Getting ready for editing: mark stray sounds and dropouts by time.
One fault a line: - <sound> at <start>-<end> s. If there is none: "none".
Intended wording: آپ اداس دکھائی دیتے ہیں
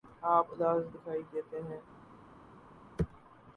none